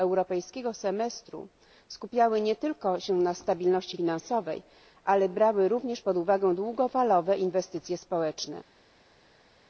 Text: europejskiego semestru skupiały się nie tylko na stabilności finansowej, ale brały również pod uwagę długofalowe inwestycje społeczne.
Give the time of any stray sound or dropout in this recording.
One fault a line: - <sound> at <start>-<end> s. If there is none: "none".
none